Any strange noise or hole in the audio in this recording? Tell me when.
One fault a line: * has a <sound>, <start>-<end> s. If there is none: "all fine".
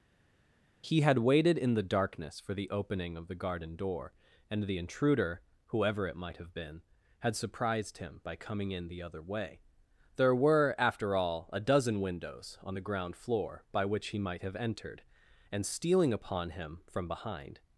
all fine